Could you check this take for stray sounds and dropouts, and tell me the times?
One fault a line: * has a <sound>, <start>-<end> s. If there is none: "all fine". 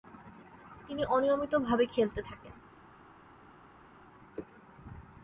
all fine